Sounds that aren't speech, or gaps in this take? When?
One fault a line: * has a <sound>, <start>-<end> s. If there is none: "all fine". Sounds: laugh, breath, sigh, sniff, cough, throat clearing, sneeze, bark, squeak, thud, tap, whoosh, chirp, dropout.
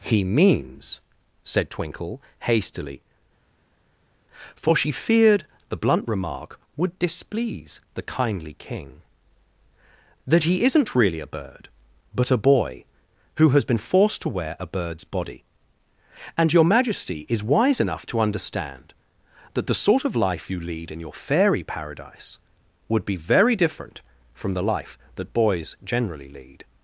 all fine